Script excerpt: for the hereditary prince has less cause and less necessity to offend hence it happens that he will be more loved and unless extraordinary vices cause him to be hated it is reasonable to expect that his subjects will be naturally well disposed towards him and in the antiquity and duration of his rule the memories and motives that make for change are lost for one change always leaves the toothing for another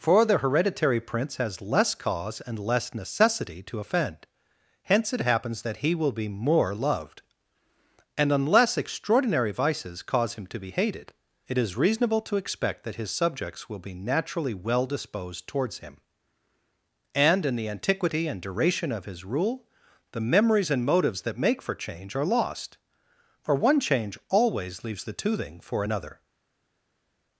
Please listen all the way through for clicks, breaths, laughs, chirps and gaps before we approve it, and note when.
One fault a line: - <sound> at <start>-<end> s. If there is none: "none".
none